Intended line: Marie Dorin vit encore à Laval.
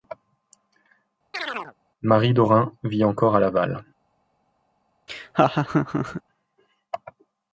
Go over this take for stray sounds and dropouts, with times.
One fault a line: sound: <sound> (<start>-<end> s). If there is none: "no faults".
sound: chirp (1.3-1.7 s)
sound: laugh (5.1-6.2 s)